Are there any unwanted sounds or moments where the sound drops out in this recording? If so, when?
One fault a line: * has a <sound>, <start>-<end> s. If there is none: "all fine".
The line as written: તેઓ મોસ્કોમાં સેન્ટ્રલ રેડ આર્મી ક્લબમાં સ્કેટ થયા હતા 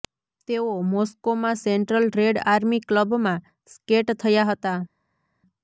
all fine